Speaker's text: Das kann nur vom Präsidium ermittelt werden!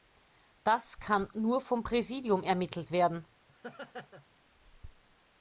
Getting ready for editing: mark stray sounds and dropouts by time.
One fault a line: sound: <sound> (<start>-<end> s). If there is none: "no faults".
sound: laugh (3.5-4.3 s)